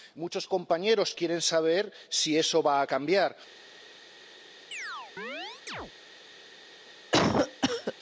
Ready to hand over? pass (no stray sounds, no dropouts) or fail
fail